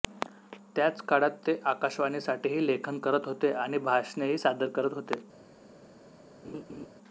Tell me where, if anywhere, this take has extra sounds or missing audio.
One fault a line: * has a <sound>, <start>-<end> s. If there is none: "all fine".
* has a laugh, 6.4-6.9 s